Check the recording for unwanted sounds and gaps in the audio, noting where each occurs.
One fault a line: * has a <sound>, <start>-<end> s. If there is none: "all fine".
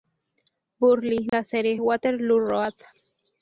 * has a dropout, 1.3-1.3 s